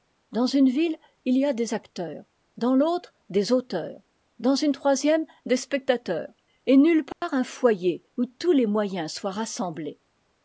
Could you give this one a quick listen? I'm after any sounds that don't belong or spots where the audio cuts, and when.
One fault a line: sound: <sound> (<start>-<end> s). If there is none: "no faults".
sound: dropout (7.1-7.2 s)